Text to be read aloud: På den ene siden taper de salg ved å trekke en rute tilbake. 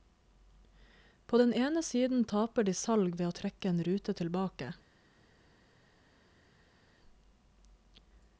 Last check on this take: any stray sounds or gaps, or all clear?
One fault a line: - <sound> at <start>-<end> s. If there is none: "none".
none